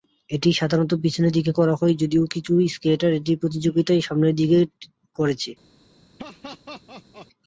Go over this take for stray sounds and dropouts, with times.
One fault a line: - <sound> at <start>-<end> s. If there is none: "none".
- laugh at 6.2-7.3 s